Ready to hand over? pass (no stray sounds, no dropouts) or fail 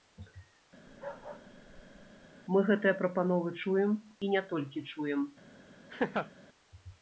fail